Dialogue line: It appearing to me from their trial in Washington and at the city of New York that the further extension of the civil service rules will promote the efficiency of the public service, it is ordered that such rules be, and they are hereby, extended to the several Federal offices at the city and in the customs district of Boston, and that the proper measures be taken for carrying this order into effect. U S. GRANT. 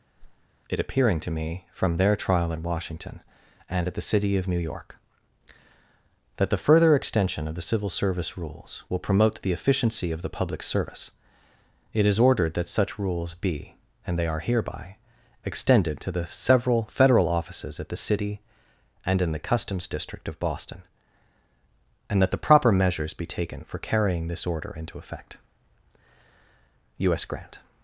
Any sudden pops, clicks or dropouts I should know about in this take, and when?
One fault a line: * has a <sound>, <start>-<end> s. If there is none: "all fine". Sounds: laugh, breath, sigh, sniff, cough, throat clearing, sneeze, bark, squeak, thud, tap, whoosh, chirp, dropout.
* has a whoosh, 0.2-0.5 s